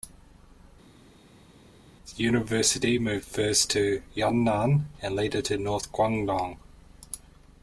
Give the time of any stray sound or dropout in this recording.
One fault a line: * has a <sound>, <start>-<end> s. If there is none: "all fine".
all fine